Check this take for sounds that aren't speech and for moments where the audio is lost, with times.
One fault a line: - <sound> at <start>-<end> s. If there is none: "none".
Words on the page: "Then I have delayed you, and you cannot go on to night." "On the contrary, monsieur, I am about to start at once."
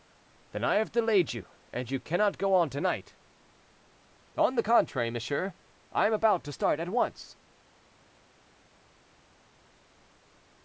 none